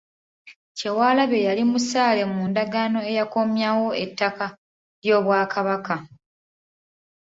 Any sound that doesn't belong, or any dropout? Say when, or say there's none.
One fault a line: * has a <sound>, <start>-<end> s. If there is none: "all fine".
all fine